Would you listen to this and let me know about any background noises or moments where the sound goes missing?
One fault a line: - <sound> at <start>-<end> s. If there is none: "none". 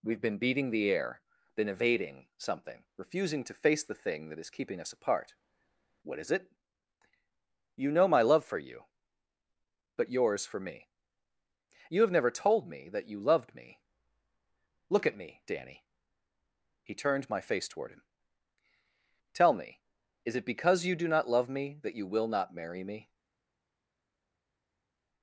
none